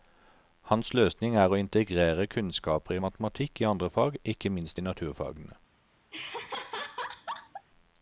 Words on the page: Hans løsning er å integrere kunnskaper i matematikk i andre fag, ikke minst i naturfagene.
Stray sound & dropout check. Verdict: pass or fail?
fail